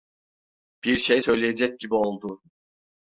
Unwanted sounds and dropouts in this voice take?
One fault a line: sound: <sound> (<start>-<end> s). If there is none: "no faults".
no faults